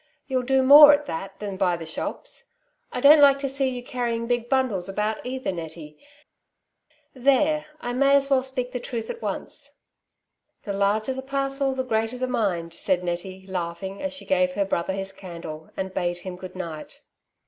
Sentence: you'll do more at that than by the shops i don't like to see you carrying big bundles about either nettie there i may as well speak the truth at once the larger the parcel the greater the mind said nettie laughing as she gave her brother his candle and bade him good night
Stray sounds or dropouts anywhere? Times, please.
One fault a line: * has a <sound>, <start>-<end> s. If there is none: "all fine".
all fine